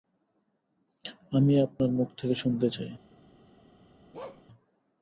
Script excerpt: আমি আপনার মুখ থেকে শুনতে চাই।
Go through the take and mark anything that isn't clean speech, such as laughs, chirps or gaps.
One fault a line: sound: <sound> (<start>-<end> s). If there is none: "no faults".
sound: bark (4.1-4.4 s)